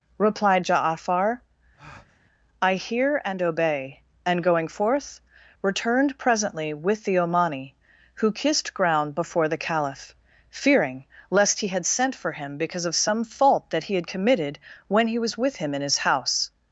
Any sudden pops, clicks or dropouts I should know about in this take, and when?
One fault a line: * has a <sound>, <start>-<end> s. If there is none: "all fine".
* has a breath, 1.8-2.2 s